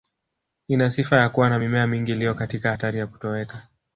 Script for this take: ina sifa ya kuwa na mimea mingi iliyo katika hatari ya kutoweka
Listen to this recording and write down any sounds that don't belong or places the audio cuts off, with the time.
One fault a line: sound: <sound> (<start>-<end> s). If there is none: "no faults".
no faults